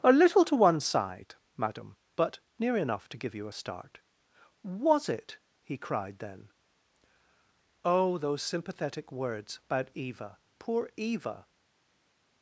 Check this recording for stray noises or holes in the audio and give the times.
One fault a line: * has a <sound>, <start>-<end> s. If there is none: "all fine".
all fine